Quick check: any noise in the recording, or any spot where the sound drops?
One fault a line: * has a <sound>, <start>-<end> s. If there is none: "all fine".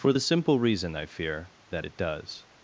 all fine